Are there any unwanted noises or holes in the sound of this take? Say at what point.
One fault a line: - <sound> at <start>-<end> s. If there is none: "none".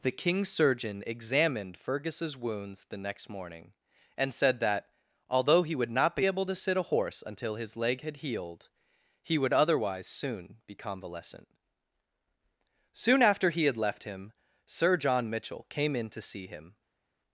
none